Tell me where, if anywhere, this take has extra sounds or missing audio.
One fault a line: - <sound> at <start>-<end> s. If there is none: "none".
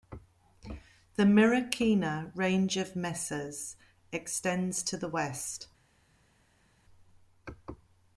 none